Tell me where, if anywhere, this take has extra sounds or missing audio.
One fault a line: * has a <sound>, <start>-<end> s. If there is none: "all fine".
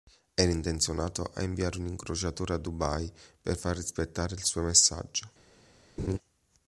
* has a laugh, 6.0-6.2 s